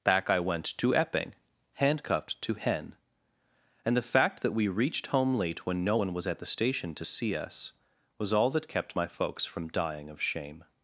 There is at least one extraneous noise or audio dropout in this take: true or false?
false